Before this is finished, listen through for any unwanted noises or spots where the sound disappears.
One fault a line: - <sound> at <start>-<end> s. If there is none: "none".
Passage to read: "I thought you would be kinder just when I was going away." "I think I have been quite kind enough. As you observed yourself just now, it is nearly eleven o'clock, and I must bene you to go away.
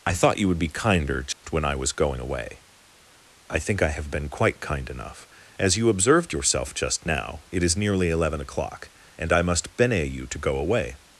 - dropout at 1.3-1.4 s